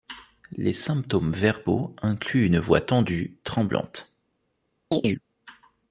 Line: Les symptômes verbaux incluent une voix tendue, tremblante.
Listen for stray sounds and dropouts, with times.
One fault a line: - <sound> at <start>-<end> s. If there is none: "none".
- chirp at 4.9-5.2 s